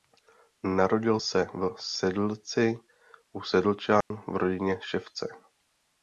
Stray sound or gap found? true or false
true